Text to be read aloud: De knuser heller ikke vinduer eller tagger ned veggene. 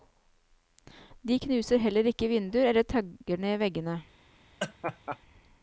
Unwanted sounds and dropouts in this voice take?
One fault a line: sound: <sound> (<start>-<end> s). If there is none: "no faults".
sound: laugh (4.6-5.2 s)